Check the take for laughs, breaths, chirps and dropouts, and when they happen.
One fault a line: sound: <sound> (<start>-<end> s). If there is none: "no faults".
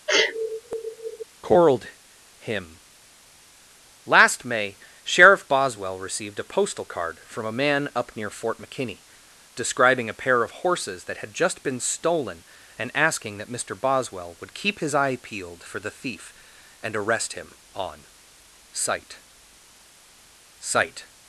sound: sneeze (0.1-1.2 s)